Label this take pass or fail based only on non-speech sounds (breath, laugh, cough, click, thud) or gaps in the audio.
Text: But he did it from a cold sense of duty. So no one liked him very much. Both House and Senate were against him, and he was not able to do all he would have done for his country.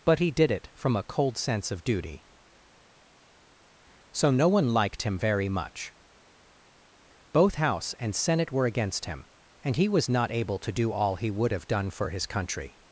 pass